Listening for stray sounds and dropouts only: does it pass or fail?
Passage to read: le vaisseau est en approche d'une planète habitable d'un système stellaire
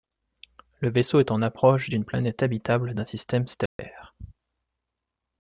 fail